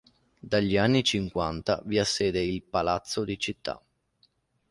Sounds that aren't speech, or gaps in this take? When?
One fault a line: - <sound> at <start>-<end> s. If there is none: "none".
none